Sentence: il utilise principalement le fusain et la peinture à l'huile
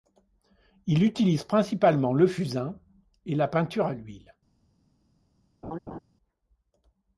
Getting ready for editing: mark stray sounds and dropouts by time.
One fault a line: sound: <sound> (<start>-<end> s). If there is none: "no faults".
sound: laugh (5.6-6.0 s)